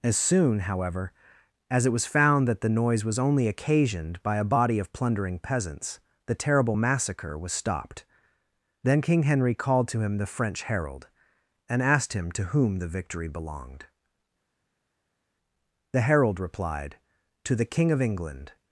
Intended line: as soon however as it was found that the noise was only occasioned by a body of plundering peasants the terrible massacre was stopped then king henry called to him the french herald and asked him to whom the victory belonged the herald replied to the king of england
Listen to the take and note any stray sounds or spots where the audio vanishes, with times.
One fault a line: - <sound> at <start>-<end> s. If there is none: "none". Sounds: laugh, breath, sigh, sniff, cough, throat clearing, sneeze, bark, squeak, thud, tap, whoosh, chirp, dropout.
none